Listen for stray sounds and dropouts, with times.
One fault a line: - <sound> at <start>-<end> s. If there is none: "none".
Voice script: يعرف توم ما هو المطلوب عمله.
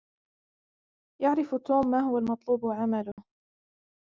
- dropout at 3.1-3.2 s